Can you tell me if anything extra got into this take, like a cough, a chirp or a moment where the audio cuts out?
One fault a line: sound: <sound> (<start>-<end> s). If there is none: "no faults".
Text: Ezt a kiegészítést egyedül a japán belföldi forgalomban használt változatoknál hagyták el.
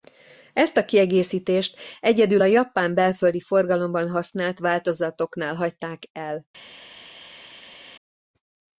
no faults